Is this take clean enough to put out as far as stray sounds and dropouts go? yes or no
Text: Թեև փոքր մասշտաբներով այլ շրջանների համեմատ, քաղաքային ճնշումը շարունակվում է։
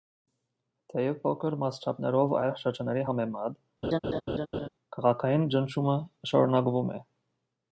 no